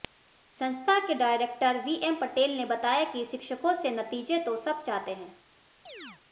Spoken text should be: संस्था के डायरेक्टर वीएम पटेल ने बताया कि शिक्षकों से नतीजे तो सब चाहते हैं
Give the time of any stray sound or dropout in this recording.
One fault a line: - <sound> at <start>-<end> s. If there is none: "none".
- chirp at 5.9-6.2 s